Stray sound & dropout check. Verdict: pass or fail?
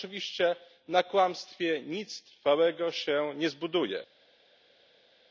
pass